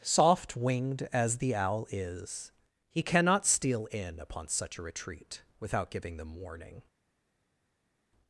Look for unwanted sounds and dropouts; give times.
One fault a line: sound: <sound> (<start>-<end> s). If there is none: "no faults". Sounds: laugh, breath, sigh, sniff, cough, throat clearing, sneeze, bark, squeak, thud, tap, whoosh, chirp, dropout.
no faults